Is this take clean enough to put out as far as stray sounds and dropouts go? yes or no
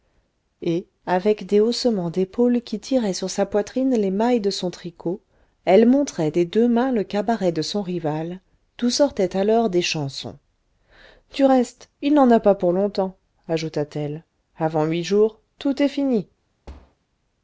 no